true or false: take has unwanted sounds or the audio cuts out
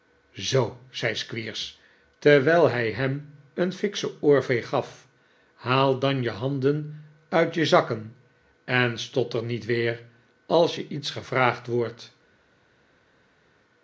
false